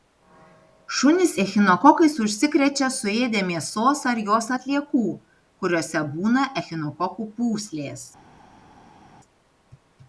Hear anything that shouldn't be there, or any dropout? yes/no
no